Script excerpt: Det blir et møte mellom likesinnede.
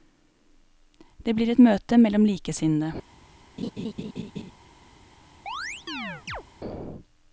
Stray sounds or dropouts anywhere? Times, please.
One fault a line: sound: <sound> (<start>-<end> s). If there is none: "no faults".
sound: laugh (3.6-4.5 s)
sound: chirp (5.5-6.4 s)